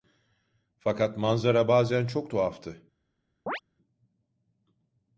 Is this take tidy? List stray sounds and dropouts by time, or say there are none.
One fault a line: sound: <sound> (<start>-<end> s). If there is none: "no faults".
sound: chirp (3.5-3.6 s)